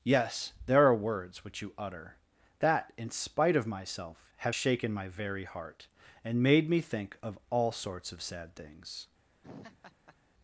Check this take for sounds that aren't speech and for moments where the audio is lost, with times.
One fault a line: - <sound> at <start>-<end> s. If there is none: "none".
- laugh at 9.4-10.2 s